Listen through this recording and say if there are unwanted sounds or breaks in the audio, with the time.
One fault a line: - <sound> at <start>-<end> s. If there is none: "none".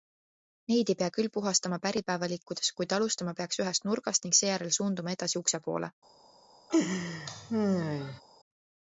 - laugh at 6.7-8.2 s